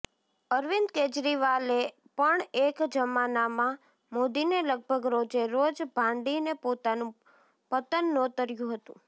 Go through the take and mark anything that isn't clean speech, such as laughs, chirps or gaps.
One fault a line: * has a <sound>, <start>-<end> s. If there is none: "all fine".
all fine